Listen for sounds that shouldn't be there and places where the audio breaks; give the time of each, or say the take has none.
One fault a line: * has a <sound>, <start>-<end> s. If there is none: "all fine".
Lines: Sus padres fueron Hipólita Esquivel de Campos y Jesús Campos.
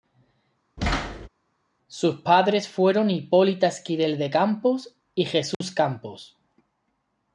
* has a thud, 0.8-1.3 s
* has a dropout, 5.5-5.6 s